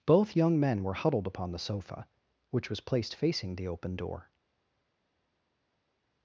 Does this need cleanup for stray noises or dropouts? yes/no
no